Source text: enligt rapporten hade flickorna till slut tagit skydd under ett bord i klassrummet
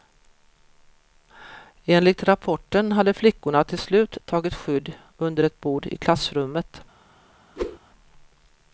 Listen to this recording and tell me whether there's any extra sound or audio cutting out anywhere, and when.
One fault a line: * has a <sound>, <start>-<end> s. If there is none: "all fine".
* has a whoosh, 7.6-7.8 s